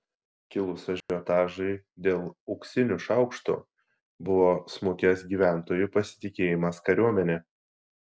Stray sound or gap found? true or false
true